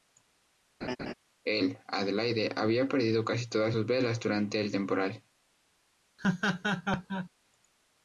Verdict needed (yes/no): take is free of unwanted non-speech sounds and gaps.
no